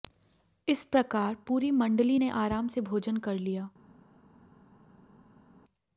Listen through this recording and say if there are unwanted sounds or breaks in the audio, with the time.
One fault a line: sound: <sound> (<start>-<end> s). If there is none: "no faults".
no faults